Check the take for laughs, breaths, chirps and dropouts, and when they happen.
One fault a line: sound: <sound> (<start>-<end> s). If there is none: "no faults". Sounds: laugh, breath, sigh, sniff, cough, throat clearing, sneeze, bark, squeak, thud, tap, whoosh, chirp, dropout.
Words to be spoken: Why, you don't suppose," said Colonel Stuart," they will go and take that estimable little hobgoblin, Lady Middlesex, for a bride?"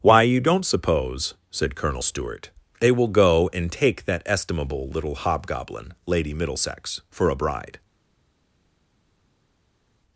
no faults